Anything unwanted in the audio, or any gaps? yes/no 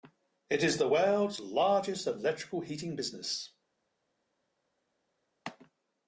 no